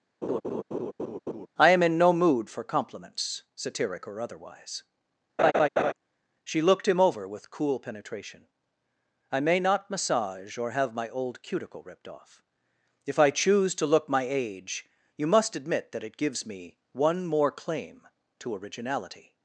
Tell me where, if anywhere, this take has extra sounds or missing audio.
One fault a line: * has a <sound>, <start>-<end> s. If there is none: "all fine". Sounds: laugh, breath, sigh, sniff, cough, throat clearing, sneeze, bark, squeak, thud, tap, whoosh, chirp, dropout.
* has a laugh, 0.2-1.5 s
* has a laugh, 5.4-5.9 s